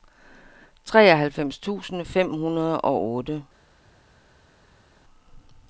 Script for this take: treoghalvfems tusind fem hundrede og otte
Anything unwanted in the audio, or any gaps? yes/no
no